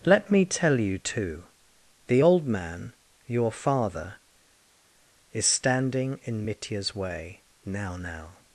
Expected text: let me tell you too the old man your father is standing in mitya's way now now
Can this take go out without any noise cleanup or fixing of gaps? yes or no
yes